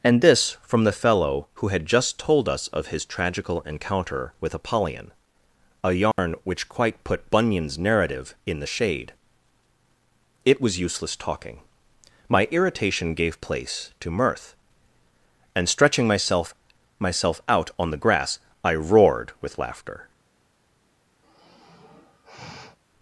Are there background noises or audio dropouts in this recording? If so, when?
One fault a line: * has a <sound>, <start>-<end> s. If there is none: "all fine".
* has a dropout, 6.1-6.2 s
* has a sigh, 21.2-22.8 s